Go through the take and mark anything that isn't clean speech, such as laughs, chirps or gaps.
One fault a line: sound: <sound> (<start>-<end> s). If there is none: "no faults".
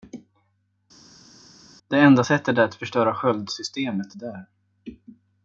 no faults